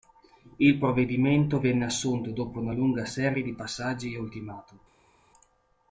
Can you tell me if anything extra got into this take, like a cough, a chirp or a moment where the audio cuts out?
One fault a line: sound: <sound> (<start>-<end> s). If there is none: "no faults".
no faults